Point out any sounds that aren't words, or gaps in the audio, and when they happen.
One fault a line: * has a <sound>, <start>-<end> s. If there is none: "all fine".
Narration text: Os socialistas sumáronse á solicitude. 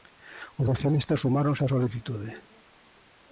all fine